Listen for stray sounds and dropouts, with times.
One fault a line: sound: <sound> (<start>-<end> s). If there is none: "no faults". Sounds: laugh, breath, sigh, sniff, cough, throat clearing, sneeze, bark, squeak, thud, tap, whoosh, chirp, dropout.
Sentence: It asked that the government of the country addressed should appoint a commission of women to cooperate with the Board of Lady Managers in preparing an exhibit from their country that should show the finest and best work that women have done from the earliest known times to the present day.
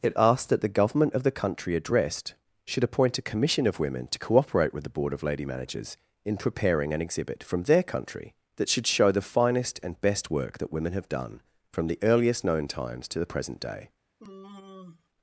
sound: sigh (14.2-15.1 s)